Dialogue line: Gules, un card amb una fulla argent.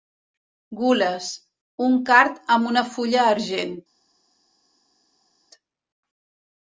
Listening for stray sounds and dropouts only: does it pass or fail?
pass